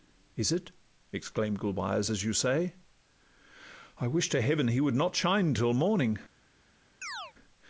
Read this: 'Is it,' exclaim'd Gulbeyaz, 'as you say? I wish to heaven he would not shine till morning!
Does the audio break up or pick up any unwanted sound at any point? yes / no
yes